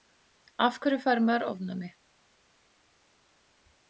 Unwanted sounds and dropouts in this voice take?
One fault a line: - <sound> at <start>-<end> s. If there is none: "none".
none